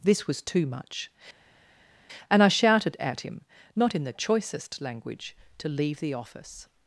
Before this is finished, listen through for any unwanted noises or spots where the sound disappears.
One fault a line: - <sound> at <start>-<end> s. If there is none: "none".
none